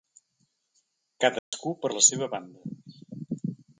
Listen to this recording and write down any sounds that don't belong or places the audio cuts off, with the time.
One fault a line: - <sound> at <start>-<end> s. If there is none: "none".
- dropout at 1.4-1.5 s